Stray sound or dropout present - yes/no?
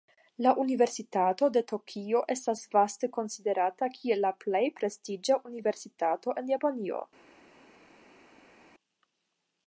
no